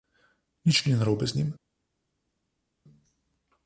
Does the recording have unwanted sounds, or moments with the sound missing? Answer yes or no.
no